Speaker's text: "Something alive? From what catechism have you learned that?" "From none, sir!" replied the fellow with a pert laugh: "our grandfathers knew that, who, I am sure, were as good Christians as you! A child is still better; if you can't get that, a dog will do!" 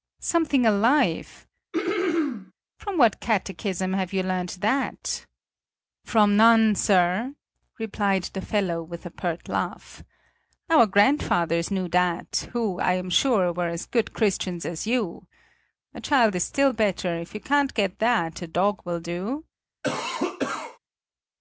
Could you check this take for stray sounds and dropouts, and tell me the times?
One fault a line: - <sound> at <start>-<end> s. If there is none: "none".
- throat clearing at 1.7-2.5 s
- cough at 19.8-20.8 s